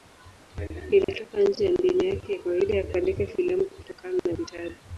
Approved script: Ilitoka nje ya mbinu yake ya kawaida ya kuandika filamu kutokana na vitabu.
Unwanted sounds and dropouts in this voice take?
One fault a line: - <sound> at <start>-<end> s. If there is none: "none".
- dropout at 1.0-1.1 s